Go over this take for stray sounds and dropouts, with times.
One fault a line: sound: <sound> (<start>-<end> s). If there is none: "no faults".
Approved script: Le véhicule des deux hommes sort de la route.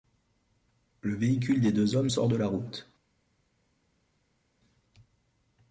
no faults